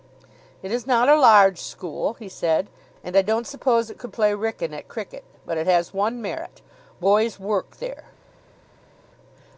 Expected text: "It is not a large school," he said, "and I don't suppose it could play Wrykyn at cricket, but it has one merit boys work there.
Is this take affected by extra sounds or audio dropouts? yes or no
no